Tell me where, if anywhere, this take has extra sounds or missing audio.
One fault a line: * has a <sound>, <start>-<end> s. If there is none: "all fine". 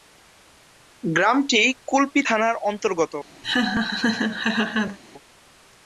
* has a laugh, 3.4-5.0 s